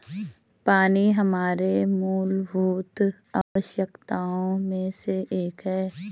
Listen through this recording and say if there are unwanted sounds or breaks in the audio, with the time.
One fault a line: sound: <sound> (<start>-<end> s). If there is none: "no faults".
sound: dropout (3.4-3.6 s)